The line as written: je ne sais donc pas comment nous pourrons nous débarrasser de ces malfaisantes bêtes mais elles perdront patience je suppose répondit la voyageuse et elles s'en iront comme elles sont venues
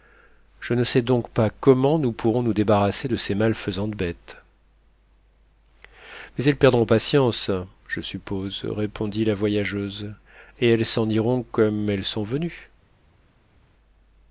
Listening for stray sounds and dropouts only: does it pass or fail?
pass